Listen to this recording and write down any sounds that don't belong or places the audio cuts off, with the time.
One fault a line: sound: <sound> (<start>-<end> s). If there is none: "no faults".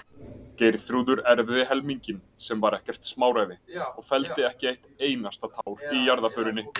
sound: dropout (5.6-5.7 s)